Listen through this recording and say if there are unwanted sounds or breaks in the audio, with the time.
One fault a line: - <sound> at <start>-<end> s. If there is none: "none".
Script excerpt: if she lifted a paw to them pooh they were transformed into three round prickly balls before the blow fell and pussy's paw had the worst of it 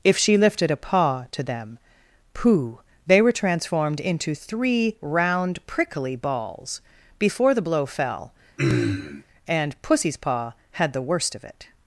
- throat clearing at 8.6-9.2 s